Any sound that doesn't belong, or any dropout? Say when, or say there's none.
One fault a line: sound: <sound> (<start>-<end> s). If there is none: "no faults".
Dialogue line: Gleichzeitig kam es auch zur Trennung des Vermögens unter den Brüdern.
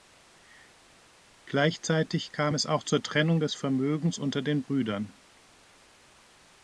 no faults